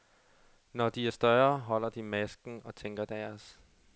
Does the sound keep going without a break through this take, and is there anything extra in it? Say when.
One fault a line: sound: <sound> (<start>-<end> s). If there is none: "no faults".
no faults